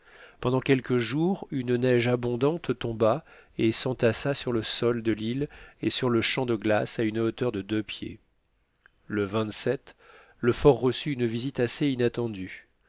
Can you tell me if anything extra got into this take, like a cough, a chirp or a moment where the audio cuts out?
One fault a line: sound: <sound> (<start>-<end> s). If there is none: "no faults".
no faults